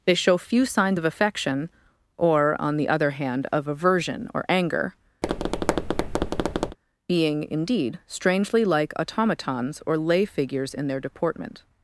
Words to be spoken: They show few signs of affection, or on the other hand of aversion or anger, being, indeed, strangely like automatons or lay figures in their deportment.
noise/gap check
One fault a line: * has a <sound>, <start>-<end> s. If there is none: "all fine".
* has a tap, 5.2-6.8 s